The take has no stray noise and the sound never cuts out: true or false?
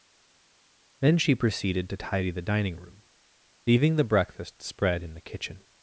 true